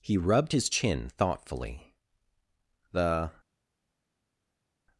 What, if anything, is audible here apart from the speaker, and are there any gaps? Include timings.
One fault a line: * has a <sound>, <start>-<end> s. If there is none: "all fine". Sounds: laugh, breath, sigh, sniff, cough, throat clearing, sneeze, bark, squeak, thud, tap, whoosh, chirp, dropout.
all fine